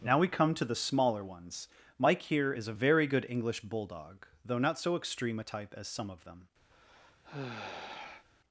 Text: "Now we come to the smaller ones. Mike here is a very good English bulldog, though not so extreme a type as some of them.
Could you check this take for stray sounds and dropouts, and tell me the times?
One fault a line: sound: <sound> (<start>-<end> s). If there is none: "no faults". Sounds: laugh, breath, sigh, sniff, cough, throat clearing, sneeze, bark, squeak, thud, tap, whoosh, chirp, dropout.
sound: sigh (6.7-8.3 s)